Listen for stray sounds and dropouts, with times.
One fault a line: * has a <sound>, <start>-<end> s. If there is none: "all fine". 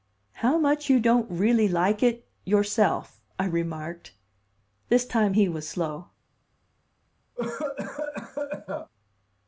* has a cough, 7.4-8.9 s